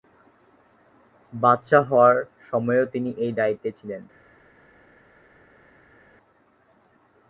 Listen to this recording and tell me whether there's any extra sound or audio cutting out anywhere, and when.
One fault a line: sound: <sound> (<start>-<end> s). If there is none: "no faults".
no faults